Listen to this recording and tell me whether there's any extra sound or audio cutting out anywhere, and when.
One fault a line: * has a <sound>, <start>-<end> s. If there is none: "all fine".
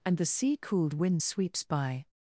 all fine